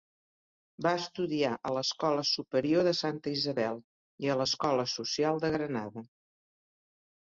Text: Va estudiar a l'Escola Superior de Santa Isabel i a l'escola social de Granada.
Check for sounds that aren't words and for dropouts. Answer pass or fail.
pass